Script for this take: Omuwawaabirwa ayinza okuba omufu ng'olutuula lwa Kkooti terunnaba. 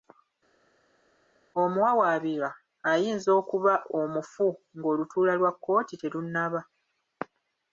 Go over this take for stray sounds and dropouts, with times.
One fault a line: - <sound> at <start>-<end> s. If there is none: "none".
none